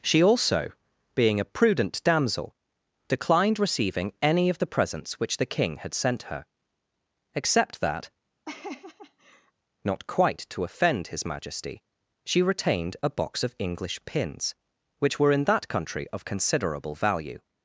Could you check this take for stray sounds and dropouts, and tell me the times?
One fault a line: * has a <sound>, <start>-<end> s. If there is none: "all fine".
* has a laugh, 8.4-9.5 s